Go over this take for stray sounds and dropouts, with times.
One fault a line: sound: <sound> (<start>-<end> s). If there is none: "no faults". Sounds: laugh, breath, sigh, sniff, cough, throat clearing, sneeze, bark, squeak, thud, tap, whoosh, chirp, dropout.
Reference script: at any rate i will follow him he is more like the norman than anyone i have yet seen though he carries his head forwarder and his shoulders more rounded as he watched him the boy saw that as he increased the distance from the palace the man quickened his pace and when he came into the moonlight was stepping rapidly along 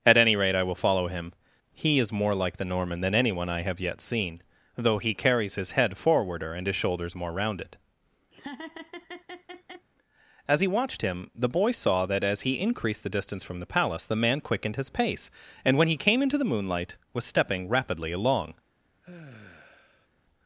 sound: laugh (8.3-9.9 s)
sound: sigh (19.0-20.1 s)